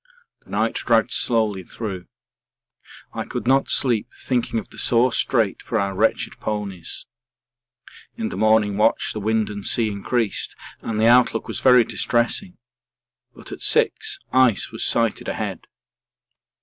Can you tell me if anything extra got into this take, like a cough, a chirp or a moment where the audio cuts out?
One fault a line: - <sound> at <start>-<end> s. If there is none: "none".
none